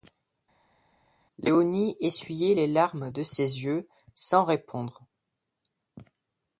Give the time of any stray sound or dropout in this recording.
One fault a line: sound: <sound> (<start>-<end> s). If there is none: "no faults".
no faults